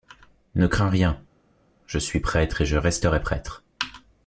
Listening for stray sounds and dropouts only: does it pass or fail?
pass